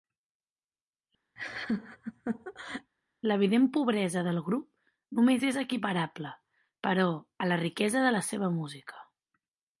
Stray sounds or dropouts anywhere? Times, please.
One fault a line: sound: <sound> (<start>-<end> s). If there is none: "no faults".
sound: laugh (1.4-2.9 s)